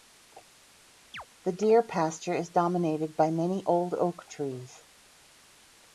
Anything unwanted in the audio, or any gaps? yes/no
yes